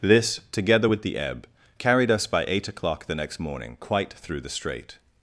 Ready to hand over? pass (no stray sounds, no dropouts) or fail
pass